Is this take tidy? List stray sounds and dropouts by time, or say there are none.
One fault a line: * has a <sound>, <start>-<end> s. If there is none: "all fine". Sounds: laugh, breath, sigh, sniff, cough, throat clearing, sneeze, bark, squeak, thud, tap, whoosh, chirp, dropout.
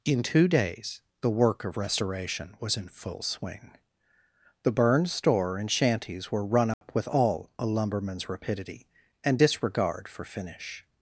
* has a dropout, 6.7-6.8 s